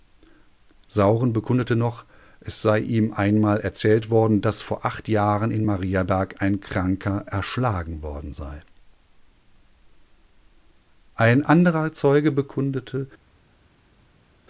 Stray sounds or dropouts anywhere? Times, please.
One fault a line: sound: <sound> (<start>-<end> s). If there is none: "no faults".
no faults